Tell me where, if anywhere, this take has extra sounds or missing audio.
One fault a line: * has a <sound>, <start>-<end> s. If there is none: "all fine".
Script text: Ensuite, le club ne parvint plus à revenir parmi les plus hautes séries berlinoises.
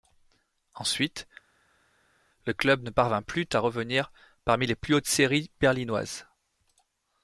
all fine